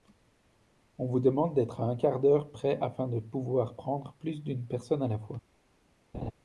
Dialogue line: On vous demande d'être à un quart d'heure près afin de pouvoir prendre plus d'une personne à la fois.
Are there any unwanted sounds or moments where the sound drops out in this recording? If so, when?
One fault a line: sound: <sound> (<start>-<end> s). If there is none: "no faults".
sound: laugh (6.1-6.3 s)